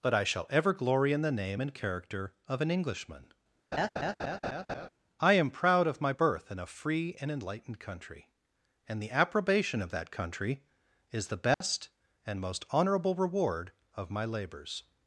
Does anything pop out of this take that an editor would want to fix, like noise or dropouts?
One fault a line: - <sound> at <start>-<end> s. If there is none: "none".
- laugh at 3.7-4.9 s
- dropout at 11.5-11.6 s